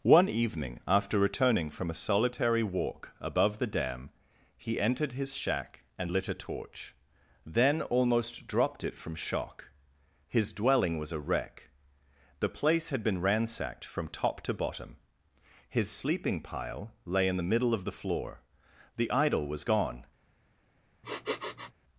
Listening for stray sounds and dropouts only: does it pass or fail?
fail